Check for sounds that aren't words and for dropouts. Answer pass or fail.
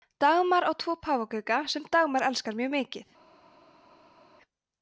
pass